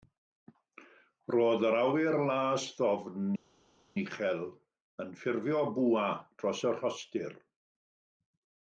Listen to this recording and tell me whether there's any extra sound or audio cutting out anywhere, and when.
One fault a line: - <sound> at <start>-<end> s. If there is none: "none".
none